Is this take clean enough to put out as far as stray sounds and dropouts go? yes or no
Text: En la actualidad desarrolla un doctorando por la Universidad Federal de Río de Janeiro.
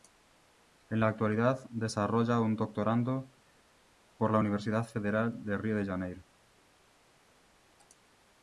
yes